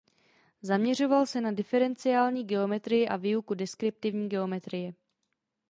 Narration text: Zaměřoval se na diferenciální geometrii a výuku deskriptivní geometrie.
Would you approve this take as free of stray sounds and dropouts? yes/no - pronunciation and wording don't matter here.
yes